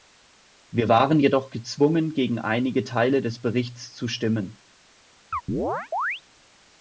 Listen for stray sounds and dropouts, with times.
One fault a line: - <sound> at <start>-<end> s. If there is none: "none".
- chirp at 5.3-6.2 s